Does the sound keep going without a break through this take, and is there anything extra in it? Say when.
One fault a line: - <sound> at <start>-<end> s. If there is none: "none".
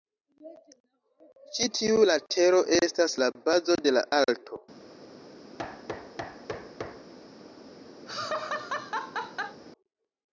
- thud at 5.6-7.1 s
- laugh at 8.1-9.6 s